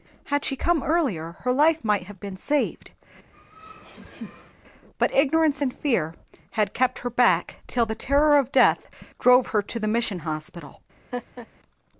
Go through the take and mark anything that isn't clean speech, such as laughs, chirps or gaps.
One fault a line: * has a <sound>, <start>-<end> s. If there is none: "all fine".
* has a laugh, 3.3-4.5 s
* has a laugh, 11.1-11.5 s